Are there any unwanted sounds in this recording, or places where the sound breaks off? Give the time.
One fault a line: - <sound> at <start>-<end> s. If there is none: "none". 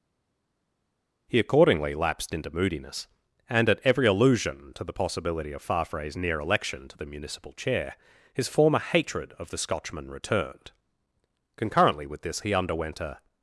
none